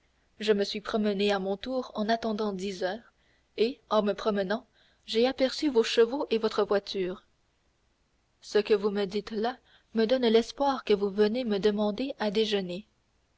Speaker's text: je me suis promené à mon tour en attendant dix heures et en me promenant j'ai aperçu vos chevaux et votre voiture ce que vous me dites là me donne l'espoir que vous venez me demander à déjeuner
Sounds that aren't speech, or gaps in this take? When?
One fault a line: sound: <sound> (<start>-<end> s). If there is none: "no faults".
no faults